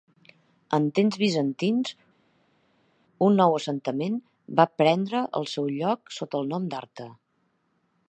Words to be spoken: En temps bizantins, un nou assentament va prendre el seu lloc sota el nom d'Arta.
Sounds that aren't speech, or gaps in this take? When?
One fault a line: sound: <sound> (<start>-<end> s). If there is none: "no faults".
no faults